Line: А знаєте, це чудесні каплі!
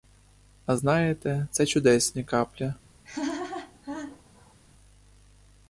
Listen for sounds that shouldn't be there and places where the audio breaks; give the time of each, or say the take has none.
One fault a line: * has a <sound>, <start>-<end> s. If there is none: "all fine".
* has a laugh, 3.0-4.6 s